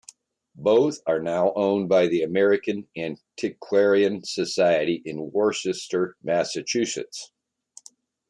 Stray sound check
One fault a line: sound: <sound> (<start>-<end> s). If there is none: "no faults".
no faults